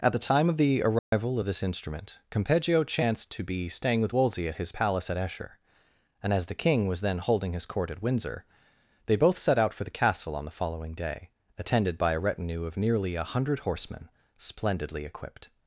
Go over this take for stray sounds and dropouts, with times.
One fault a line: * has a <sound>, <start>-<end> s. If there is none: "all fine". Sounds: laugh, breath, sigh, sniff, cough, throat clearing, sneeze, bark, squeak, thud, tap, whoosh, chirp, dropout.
* has a dropout, 1.0-1.1 s